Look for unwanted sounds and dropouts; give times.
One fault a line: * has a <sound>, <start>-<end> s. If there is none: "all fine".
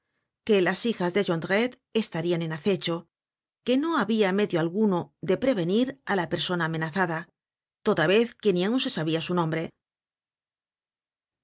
all fine